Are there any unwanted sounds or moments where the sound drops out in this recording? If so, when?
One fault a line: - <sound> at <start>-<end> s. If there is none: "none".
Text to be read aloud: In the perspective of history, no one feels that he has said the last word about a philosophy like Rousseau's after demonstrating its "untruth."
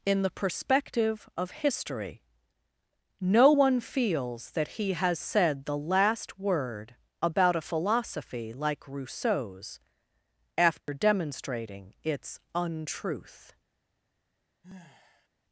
- dropout at 10.8-10.9 s
- sigh at 14.6-15.3 s